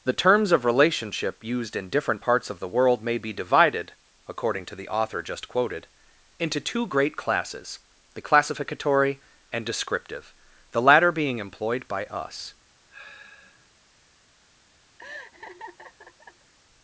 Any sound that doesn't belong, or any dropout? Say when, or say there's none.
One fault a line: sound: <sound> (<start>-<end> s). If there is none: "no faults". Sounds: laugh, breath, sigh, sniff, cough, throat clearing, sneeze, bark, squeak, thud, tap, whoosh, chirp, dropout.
sound: sigh (12.9-13.7 s)
sound: laugh (15.0-16.5 s)